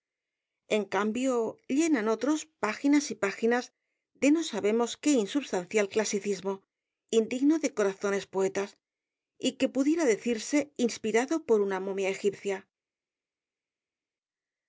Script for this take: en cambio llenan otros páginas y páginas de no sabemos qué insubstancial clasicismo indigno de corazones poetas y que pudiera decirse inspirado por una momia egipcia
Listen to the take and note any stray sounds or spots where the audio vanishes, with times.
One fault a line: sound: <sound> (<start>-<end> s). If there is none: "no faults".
no faults